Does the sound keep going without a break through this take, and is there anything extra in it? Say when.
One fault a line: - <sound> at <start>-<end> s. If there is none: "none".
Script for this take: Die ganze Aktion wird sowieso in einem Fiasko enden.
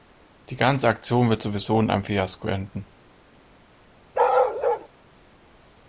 - bark at 4.1-4.9 s